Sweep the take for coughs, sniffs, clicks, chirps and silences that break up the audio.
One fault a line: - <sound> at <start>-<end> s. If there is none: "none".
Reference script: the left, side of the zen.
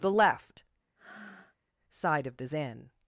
- breath at 1.0-1.6 s